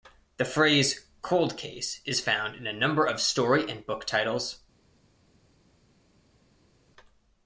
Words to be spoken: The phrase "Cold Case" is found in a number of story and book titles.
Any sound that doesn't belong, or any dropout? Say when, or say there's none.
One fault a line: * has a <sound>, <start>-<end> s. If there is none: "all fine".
all fine